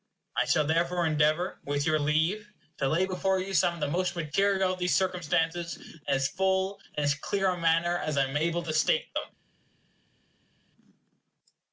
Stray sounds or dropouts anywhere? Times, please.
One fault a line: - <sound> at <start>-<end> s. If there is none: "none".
none